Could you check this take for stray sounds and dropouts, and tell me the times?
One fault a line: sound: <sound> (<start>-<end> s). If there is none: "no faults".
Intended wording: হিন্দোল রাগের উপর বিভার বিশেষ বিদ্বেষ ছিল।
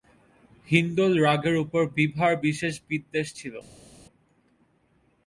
no faults